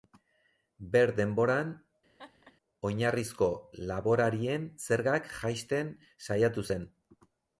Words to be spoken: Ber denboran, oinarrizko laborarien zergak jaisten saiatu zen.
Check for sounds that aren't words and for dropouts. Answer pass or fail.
fail